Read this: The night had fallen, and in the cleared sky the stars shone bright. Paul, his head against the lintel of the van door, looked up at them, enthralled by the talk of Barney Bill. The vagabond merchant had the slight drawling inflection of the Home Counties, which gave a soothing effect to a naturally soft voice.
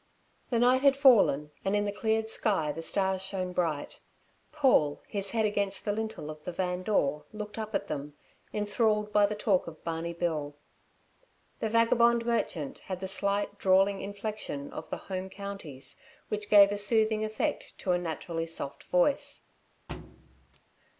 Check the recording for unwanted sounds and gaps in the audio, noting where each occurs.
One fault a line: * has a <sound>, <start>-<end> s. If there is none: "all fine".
* has a thud, 19.9-20.6 s